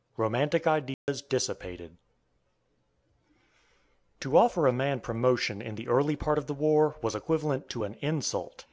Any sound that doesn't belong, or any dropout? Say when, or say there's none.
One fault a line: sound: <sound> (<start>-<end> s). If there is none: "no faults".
sound: dropout (0.9-1.1 s)